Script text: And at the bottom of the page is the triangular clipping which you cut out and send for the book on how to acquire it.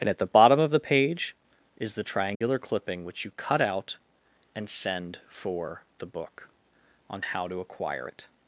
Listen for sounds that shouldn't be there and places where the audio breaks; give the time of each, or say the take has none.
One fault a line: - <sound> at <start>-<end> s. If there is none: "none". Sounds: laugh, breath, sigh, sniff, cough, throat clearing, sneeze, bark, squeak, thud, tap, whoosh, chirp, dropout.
- dropout at 2.3-2.4 s